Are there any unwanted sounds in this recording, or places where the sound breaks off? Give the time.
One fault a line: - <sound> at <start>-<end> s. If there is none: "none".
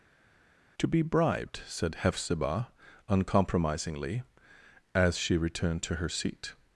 none